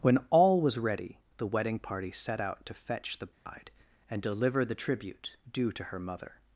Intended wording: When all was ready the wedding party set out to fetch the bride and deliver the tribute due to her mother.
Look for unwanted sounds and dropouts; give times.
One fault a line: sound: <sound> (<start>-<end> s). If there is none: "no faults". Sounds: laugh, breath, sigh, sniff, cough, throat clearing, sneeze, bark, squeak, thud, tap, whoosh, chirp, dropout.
sound: dropout (3.3-3.5 s)